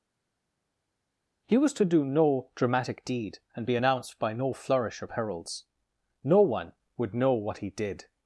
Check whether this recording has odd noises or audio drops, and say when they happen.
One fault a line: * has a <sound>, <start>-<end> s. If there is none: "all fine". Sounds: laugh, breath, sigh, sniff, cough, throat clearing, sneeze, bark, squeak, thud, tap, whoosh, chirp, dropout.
all fine